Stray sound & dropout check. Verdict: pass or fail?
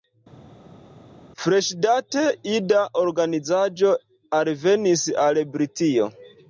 pass